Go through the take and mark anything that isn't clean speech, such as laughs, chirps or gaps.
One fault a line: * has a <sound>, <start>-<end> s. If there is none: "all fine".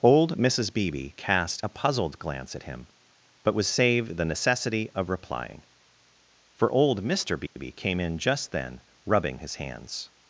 * has a dropout, 7.5-7.6 s